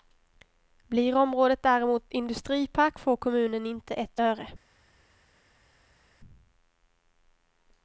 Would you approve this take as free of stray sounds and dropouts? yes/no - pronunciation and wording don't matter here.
yes